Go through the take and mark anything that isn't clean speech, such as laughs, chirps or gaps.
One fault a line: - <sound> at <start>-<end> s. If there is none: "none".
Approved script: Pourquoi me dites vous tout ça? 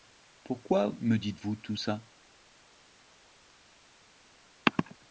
none